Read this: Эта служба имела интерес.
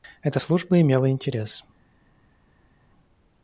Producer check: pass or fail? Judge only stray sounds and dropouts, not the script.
pass